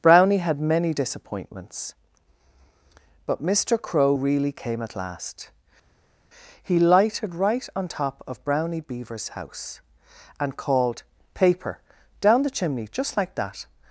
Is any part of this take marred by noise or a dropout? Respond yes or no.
no